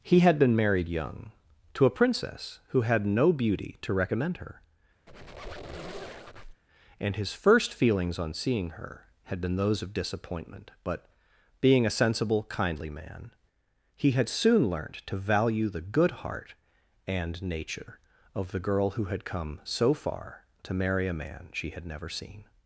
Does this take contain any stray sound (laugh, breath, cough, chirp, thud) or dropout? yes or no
yes